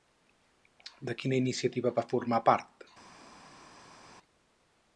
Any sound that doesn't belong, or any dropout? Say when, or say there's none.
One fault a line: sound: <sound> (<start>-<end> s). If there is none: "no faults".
no faults